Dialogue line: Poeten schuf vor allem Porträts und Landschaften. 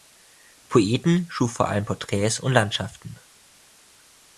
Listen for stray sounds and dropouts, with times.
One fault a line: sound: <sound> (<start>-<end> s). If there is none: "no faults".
no faults